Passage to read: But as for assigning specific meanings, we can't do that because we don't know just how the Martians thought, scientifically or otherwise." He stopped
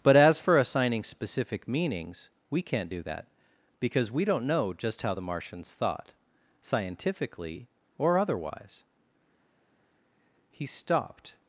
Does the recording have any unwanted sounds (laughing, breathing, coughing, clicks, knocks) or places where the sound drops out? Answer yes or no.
no